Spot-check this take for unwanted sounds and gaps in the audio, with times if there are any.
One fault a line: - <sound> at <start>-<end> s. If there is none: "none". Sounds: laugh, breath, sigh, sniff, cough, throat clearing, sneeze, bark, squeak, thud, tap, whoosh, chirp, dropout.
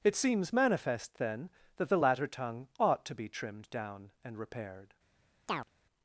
- chirp at 5.5-5.7 s